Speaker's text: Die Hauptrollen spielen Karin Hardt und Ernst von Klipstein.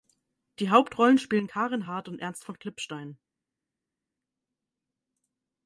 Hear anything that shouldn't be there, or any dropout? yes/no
no